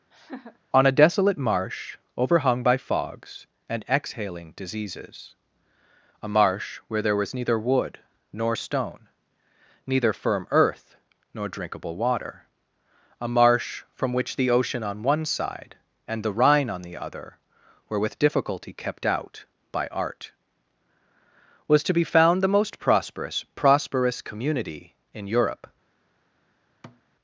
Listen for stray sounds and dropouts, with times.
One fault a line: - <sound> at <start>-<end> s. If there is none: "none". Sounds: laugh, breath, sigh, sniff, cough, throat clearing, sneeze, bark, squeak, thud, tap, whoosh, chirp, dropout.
- laugh at 0.1-0.6 s
- thud at 26.8-27.0 s